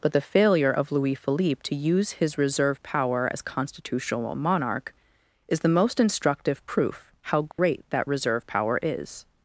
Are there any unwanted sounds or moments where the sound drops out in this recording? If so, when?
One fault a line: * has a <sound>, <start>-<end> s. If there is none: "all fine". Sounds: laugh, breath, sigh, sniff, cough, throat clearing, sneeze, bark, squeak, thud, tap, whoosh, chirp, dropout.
* has a dropout, 7.5-7.6 s